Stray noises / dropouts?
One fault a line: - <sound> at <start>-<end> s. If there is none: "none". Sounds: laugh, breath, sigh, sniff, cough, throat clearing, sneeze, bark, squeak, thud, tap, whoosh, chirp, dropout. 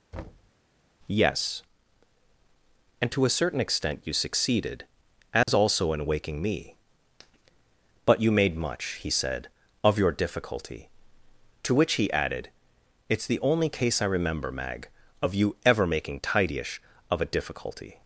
- thud at 0.1-0.5 s
- dropout at 5.4-5.5 s